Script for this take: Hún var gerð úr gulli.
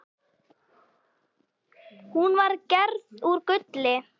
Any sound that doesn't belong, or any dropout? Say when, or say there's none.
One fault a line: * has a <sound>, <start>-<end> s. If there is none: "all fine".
all fine